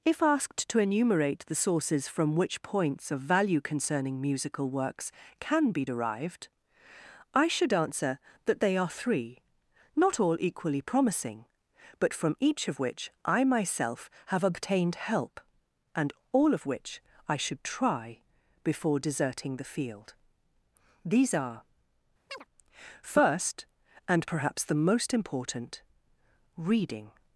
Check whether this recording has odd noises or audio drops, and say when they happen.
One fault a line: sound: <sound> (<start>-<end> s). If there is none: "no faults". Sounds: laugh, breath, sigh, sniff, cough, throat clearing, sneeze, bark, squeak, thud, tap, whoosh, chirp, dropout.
sound: chirp (22.3-22.4 s)